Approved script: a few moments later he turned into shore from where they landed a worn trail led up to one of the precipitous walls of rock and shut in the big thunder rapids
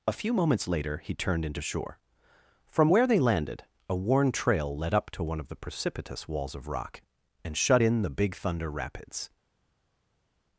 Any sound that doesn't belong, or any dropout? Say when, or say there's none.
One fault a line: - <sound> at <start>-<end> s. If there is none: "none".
none